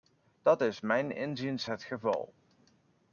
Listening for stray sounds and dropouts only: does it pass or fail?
pass